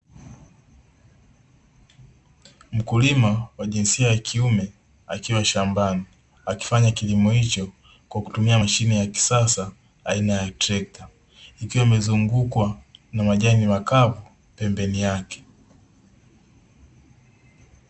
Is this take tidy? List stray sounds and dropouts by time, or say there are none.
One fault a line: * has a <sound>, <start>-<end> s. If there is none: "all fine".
all fine